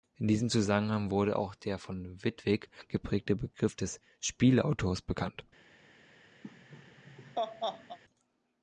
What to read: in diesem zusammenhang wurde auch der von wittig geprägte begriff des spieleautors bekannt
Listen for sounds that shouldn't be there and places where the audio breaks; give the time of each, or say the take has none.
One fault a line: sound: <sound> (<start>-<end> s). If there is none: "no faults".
sound: laugh (6.4-8.0 s)